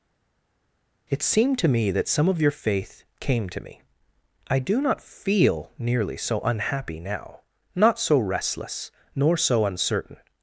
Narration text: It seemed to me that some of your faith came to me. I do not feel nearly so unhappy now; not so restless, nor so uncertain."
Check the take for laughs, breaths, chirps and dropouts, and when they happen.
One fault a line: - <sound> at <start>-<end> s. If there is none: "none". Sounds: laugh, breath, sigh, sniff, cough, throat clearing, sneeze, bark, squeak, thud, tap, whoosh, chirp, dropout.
none